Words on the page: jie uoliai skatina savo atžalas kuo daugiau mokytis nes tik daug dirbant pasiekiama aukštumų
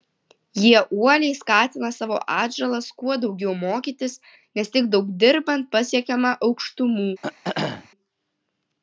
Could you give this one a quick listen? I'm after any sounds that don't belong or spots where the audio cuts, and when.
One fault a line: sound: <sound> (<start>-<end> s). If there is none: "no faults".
sound: throat clearing (7.2-7.9 s)